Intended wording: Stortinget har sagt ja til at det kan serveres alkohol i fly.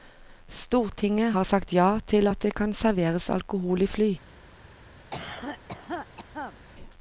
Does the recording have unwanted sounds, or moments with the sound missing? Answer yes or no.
yes